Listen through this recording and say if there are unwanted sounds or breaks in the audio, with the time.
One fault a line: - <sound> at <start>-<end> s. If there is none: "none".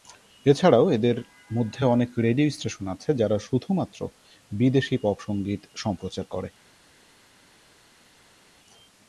none